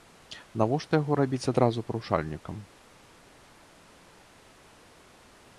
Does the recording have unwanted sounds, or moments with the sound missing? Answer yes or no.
no